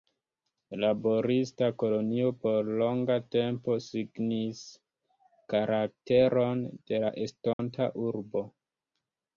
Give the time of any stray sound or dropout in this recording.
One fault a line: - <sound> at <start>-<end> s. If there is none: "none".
- dropout at 7.5-7.6 s